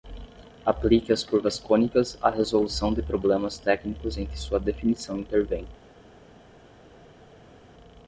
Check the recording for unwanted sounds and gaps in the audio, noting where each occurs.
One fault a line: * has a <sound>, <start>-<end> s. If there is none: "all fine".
all fine